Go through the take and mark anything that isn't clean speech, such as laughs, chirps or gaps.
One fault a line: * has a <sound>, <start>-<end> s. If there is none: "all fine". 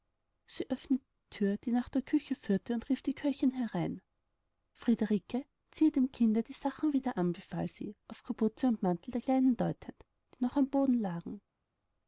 all fine